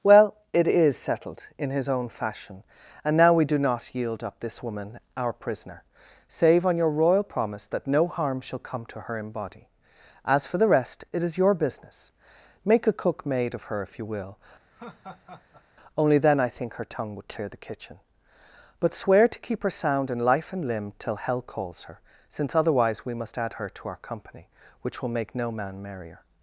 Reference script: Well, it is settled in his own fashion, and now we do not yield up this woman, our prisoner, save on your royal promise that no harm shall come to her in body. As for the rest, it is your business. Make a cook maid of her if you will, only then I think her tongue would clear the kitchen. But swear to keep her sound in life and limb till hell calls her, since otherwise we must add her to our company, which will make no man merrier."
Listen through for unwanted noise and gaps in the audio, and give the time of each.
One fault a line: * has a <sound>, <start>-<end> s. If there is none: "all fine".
* has a laugh, 14.7-15.6 s